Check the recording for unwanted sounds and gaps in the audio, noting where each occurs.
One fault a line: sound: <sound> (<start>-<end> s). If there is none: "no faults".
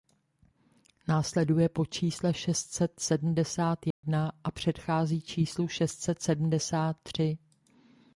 sound: dropout (3.9-4.0 s)